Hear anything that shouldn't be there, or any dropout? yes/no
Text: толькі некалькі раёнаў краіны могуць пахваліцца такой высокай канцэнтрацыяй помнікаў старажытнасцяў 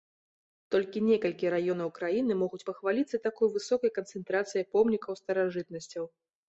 no